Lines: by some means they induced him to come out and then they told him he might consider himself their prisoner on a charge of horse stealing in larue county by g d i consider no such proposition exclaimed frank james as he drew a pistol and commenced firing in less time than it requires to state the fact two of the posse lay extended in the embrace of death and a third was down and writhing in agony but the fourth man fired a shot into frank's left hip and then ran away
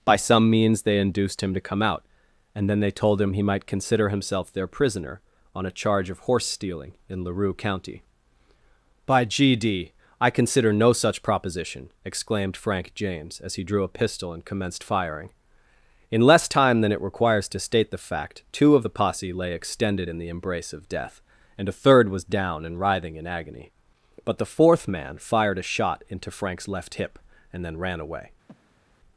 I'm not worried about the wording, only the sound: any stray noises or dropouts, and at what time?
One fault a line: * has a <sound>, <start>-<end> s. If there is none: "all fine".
* has a breath, 28.5-29.0 s